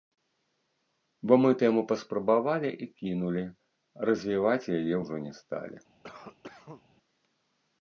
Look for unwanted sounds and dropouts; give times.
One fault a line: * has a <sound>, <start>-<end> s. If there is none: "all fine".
* has a cough, 6.0-6.8 s